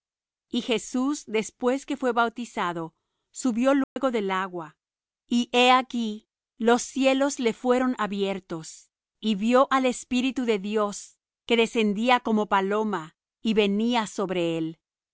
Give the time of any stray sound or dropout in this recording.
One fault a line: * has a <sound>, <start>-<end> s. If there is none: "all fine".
* has a dropout, 3.8-4.0 s